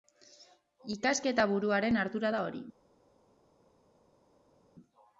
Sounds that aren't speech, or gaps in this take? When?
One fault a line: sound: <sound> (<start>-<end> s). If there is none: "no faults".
no faults